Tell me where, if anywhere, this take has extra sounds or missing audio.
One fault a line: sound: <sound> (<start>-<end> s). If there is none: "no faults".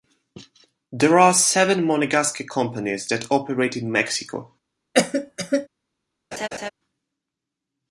sound: cough (4.9-5.7 s)
sound: laugh (6.3-6.7 s)